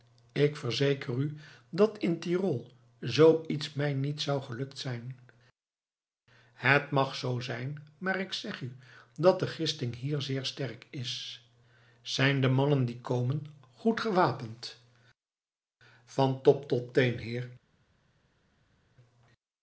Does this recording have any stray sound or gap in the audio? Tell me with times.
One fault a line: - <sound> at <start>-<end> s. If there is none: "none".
none